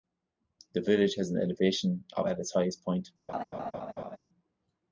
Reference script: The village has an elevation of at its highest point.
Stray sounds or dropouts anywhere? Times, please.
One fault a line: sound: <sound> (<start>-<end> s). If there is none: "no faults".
sound: laugh (3.3-4.2 s)